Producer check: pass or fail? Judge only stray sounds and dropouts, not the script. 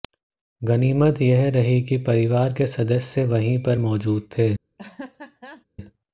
fail